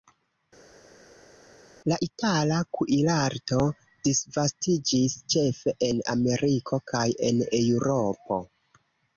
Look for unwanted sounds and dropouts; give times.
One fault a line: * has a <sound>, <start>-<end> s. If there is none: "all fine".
all fine